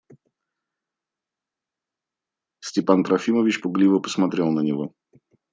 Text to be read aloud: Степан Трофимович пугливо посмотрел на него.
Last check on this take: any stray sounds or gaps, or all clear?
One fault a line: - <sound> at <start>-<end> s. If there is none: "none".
none